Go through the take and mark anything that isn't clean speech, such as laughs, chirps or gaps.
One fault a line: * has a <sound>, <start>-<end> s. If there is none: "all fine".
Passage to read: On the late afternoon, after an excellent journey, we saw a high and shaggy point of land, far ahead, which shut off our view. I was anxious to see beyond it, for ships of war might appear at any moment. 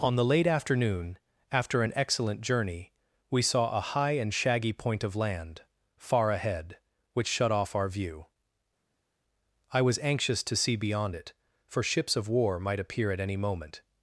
all fine